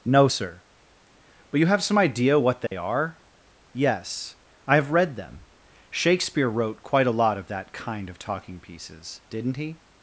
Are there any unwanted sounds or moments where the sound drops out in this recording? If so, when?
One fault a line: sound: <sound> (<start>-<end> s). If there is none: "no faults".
sound: dropout (2.7-2.7 s)